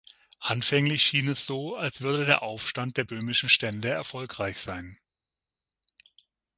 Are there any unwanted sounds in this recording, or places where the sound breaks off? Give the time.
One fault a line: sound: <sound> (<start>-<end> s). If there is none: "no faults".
no faults